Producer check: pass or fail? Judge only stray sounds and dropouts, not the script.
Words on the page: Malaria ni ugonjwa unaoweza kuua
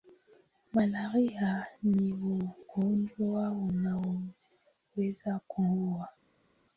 pass